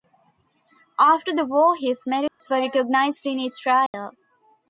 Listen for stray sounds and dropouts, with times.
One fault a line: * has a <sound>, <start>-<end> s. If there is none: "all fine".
* has a dropout, 2.3-2.4 s
* has a dropout, 3.9-3.9 s